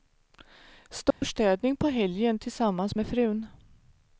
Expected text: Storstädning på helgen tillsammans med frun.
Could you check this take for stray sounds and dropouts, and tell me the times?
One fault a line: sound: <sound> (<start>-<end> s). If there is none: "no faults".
sound: dropout (1.1-1.2 s)